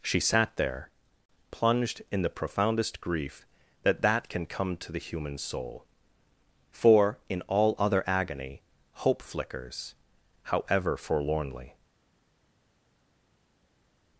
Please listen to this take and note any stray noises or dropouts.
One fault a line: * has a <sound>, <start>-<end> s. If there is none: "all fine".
all fine